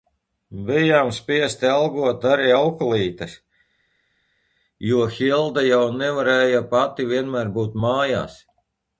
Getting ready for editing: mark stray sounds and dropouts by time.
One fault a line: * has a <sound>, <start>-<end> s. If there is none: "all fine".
all fine